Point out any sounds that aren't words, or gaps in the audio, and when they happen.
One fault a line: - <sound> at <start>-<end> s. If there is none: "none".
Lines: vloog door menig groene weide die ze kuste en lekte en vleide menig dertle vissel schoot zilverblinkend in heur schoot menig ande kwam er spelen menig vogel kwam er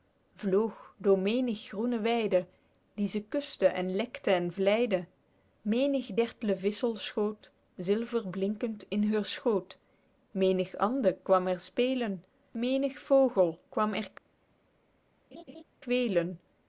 - laugh at 15.3-15.6 s